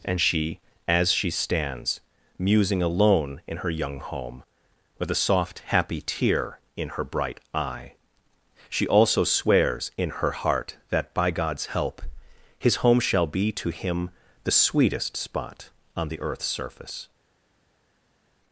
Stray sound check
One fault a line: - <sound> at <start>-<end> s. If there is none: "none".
none